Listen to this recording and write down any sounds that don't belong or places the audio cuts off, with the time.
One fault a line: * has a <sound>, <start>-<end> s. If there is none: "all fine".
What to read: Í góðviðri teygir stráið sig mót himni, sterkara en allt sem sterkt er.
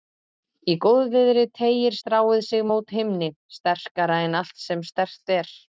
all fine